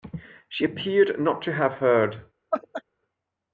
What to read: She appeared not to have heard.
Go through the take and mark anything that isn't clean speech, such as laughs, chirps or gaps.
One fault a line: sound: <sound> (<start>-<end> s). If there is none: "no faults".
sound: laugh (2.5-2.8 s)